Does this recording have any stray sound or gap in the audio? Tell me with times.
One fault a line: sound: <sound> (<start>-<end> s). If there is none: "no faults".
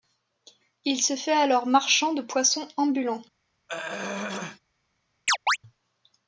sound: throat clearing (3.7-4.6 s)
sound: chirp (5.3-5.6 s)